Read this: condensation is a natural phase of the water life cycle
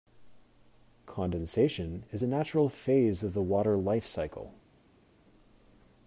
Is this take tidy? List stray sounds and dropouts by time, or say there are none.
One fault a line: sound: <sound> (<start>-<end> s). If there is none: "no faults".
no faults